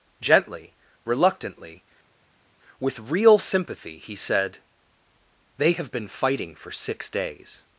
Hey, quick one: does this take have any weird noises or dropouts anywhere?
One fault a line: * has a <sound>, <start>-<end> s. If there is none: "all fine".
all fine